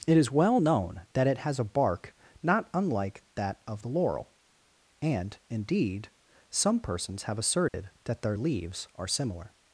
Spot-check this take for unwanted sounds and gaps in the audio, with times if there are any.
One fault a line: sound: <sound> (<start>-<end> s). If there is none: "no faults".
sound: dropout (7.7-7.7 s)